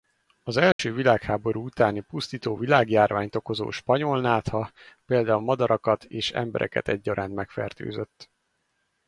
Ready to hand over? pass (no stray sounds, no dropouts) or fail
fail